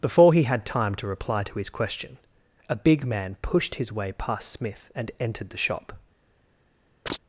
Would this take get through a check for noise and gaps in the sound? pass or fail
fail